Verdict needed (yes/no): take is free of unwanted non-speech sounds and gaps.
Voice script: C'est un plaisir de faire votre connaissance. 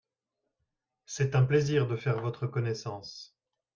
yes